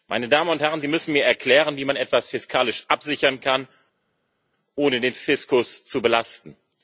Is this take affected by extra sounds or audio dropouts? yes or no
no